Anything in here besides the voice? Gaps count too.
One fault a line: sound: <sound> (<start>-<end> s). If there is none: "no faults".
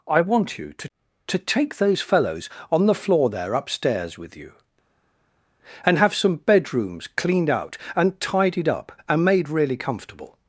no faults